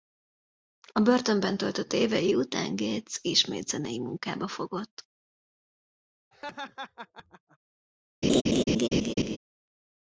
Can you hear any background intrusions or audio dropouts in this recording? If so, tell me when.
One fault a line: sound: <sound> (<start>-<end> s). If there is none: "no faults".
sound: laugh (6.3-7.6 s)
sound: laugh (8.2-9.4 s)